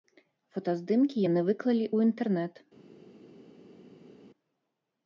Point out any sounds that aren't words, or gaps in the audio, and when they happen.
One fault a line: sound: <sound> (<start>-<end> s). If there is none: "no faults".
no faults